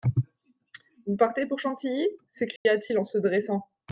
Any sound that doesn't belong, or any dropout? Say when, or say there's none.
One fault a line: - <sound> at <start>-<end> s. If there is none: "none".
- dropout at 2.6-2.7 s